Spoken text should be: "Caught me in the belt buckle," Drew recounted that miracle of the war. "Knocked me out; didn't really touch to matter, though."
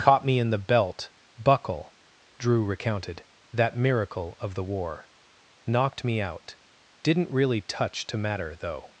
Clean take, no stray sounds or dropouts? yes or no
yes